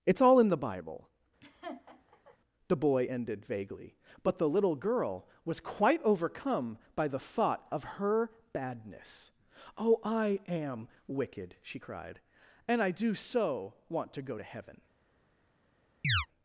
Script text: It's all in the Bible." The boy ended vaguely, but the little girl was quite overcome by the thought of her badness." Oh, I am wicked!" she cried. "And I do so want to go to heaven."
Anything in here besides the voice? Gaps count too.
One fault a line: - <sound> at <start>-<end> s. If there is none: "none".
- laugh at 1.4-2.4 s
- chirp at 16.0-16.3 s